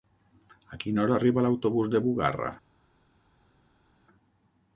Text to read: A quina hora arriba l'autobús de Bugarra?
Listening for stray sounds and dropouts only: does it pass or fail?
pass